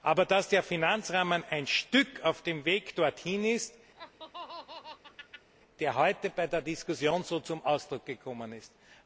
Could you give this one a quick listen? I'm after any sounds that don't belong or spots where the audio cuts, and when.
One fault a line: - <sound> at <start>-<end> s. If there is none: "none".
- laugh at 3.9-5.5 s